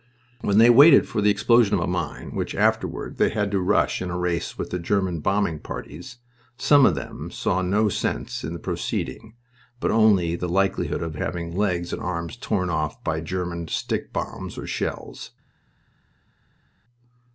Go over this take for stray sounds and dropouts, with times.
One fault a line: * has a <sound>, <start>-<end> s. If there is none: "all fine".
all fine